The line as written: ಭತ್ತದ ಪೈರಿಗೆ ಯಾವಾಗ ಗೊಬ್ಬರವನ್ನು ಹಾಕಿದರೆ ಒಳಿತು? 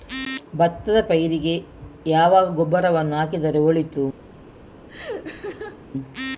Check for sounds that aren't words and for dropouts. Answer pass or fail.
fail